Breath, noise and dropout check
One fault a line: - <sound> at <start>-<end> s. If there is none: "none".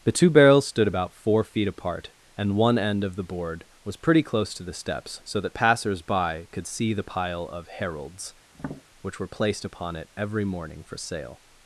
- tap at 8.5-8.8 s